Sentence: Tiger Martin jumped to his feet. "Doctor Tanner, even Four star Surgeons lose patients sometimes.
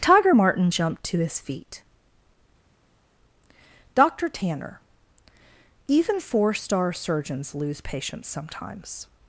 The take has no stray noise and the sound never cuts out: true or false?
true